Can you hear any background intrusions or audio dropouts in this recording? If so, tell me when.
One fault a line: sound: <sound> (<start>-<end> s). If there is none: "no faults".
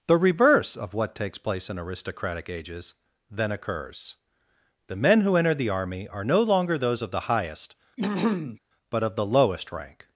sound: throat clearing (8.0-8.6 s)